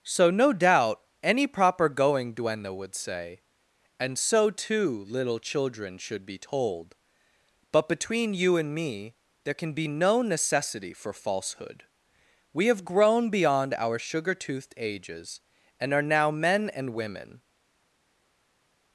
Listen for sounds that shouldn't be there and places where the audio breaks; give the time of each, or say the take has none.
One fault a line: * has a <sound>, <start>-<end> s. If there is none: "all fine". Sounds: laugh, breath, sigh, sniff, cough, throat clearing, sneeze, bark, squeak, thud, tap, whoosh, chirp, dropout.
all fine